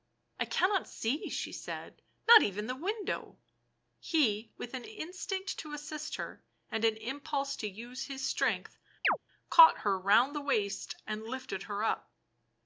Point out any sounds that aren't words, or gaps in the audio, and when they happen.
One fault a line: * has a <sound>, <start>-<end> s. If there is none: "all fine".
* has a chirp, 9.0-9.2 s